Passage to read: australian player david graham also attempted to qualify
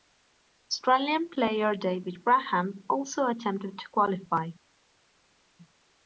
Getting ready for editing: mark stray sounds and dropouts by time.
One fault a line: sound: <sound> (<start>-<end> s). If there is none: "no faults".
no faults